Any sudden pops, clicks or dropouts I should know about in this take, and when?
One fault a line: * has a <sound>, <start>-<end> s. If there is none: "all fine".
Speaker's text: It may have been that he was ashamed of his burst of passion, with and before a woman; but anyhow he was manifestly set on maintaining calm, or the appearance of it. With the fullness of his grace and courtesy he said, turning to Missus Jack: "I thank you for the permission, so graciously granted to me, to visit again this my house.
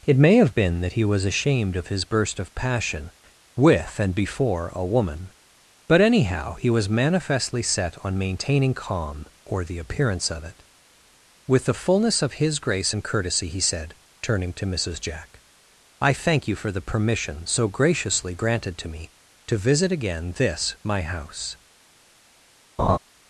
* has a laugh, 22.8-23.0 s